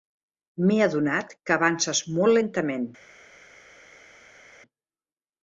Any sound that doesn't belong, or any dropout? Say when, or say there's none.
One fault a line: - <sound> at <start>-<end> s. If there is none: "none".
none